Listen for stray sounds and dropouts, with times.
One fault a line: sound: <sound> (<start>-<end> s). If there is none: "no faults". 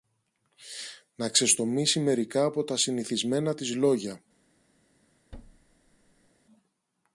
sound: thud (5.3-6.3 s)